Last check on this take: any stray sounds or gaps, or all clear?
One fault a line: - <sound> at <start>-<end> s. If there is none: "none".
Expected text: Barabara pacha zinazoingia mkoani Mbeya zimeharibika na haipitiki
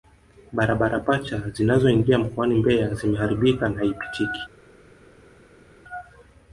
none